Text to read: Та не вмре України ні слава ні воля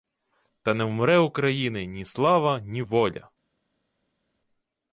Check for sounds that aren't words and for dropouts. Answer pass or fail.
pass